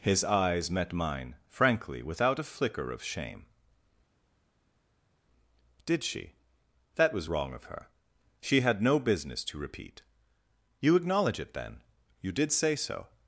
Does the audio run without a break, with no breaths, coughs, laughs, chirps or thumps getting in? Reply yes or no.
yes